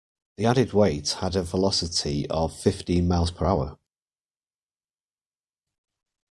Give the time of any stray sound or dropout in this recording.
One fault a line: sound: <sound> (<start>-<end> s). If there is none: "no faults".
no faults